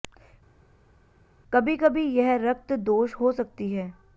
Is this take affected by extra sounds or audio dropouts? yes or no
no